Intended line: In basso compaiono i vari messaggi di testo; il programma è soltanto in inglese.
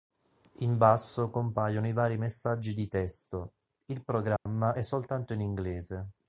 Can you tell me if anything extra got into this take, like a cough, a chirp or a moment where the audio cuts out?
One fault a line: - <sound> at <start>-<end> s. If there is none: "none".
- dropout at 4.4-4.5 s